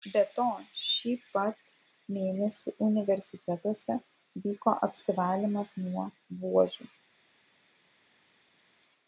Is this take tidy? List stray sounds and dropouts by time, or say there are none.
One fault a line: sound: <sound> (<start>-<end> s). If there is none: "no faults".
no faults